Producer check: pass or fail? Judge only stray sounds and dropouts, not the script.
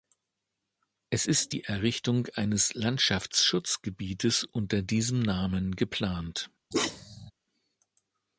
fail